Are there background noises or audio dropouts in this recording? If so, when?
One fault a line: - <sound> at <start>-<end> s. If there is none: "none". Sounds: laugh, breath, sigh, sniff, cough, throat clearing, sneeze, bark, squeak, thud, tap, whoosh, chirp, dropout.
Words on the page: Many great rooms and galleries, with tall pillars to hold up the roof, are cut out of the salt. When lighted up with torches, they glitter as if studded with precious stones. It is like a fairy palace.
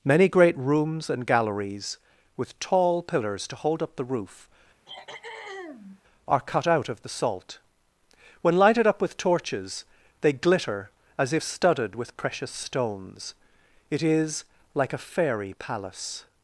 - throat clearing at 4.9-6.0 s